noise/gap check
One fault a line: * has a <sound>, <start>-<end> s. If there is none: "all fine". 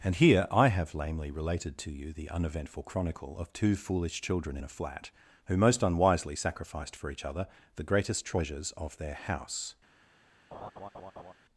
* has a laugh, 10.5-11.3 s